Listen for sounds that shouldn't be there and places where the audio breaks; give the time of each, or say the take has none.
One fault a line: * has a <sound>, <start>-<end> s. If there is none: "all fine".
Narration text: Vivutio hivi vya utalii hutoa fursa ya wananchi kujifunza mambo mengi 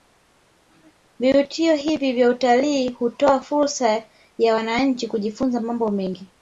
all fine